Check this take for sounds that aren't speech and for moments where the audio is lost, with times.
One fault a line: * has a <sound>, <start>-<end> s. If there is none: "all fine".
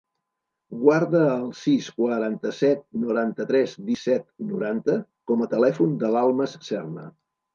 all fine